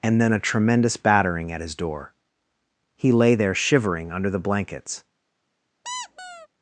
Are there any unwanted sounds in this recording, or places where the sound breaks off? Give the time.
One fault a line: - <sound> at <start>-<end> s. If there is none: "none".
- squeak at 5.8-6.5 s